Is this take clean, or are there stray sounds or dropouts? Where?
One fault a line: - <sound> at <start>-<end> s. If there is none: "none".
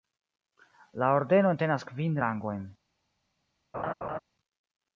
- laugh at 3.7-4.2 s